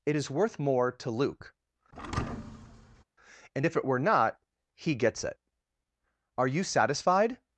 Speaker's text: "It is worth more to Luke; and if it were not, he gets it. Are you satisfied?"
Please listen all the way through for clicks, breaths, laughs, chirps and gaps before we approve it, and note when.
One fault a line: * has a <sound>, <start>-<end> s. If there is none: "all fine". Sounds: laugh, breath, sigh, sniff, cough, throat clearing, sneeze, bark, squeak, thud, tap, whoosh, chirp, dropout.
* has a thud, 1.9-3.0 s